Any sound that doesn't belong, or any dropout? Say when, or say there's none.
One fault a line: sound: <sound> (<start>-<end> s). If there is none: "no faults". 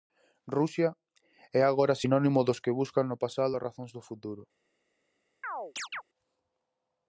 sound: chirp (5.4-6.0 s)